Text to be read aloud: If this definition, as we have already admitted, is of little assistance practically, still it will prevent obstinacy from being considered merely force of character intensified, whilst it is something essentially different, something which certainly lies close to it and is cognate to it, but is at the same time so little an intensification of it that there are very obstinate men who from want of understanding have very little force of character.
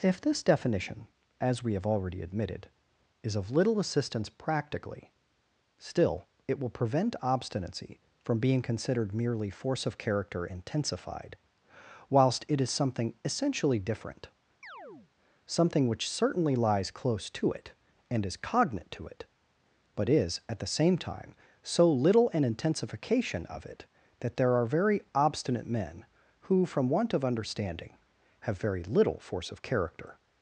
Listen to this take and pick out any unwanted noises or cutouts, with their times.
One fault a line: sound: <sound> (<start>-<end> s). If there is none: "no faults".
sound: chirp (14.6-15.1 s)